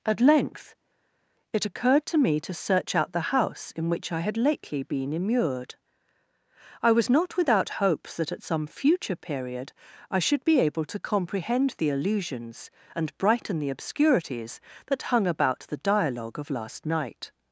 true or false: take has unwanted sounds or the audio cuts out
false